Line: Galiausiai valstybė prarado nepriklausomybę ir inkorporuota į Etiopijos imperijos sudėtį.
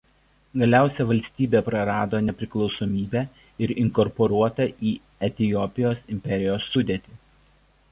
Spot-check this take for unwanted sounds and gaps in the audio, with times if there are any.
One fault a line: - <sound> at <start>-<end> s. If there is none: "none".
none